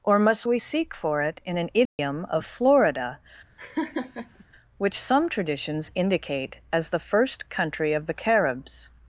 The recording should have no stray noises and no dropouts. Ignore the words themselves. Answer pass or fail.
fail